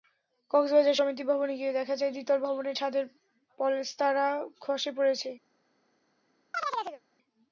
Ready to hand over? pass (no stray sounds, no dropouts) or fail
fail